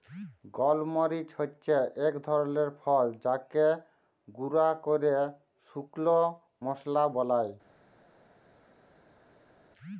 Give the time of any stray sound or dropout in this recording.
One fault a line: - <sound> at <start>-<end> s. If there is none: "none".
none